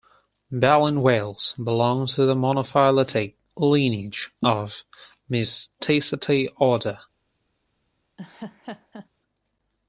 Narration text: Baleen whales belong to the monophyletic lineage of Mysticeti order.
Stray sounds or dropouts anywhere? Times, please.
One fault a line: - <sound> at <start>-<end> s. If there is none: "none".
- laugh at 8.2-9.1 s